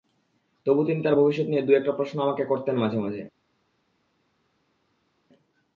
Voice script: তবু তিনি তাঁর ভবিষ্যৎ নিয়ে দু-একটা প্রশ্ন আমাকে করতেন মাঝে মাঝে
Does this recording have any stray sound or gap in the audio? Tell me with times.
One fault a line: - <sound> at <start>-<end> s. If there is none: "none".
none